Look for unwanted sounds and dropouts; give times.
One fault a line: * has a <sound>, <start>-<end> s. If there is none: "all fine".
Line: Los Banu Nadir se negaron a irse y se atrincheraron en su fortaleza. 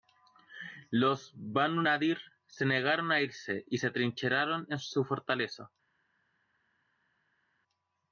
all fine